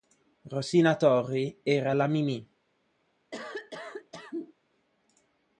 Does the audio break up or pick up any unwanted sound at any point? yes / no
yes